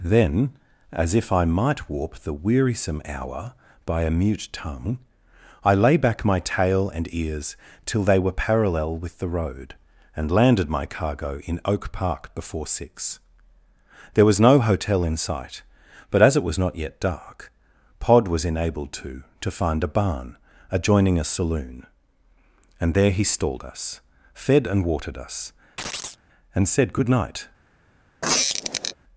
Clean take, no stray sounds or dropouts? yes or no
no